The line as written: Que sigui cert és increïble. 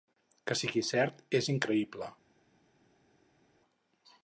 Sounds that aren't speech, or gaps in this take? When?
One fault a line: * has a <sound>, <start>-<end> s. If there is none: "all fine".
all fine